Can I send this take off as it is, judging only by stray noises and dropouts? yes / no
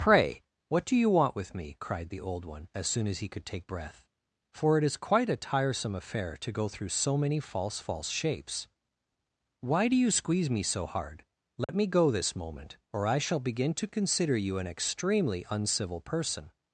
no